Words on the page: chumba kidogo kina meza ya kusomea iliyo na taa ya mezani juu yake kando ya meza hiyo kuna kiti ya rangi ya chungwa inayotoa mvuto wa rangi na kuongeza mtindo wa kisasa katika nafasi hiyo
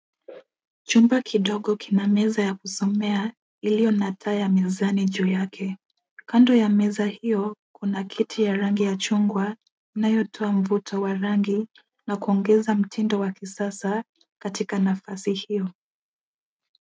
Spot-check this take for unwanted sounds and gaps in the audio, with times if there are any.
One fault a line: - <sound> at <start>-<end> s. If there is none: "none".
none